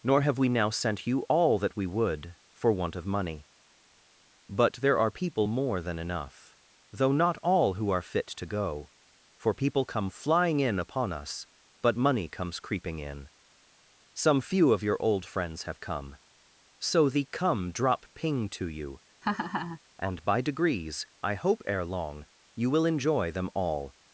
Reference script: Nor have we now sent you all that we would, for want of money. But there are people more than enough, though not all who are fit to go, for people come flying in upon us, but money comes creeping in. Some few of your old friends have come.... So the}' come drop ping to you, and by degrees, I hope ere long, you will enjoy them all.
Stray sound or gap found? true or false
true